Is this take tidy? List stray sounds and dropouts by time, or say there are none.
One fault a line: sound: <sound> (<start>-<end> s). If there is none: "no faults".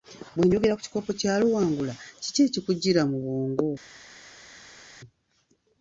no faults